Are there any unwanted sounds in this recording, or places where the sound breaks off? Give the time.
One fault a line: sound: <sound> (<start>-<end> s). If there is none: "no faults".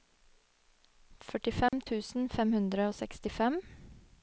sound: dropout (1.7-1.7 s)